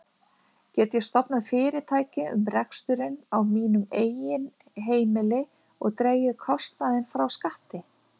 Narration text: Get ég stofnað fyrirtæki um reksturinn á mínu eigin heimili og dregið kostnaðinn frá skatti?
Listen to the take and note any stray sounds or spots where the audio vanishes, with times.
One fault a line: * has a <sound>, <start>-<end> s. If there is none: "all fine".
all fine